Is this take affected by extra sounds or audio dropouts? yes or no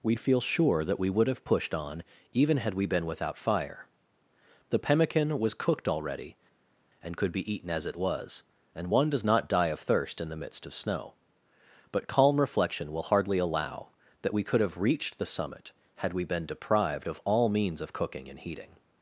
no